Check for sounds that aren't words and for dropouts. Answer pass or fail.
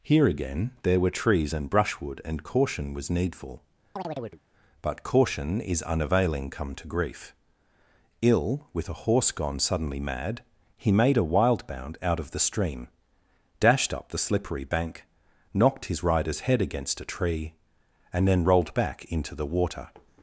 fail